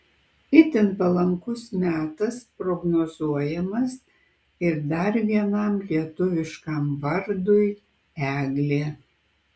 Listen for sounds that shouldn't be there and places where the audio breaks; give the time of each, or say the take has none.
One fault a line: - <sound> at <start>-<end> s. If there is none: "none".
none